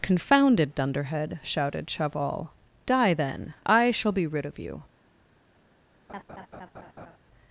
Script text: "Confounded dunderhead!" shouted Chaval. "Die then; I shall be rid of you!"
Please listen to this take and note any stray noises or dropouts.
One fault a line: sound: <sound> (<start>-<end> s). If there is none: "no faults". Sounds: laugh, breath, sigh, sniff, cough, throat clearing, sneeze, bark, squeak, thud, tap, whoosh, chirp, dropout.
sound: laugh (6.1-7.2 s)